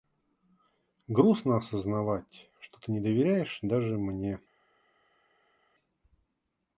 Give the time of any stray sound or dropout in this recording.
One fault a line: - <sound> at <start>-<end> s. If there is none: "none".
none